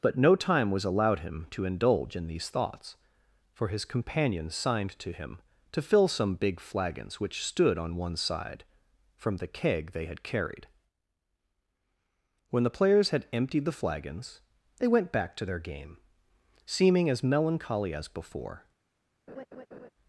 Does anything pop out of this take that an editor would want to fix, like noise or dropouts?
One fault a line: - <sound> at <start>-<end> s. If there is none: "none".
- laugh at 19.3-19.9 s